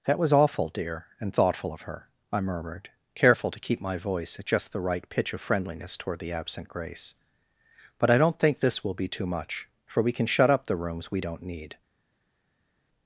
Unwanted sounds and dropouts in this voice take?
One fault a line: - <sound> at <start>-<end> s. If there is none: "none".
none